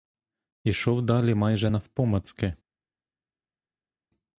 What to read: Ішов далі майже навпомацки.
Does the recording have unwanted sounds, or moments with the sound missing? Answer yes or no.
no